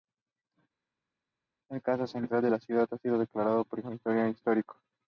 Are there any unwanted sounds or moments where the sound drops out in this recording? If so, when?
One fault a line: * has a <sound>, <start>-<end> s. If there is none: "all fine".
all fine